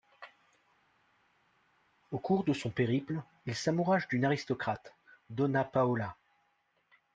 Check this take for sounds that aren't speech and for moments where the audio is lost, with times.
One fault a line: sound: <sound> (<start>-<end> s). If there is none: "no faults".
no faults